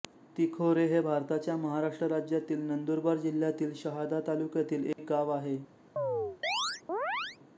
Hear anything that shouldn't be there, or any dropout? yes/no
yes